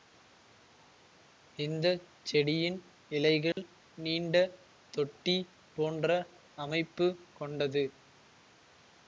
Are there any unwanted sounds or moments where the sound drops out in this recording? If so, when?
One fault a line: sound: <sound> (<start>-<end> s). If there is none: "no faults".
sound: dropout (3.5-3.6 s)